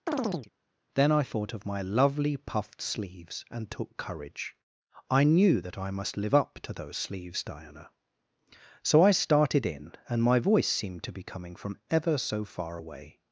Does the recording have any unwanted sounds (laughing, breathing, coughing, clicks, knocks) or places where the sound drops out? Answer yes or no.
yes